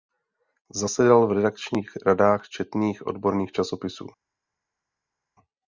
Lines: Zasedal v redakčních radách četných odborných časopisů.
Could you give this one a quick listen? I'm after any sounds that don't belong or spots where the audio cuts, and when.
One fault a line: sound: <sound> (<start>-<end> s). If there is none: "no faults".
no faults